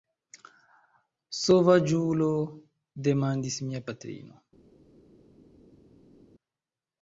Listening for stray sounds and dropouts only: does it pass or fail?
pass